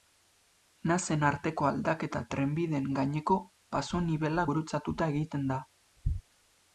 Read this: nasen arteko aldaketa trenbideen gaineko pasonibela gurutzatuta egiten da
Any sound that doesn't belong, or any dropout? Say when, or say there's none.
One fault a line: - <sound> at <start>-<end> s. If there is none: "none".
none